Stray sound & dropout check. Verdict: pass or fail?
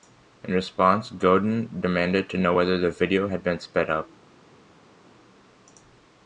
pass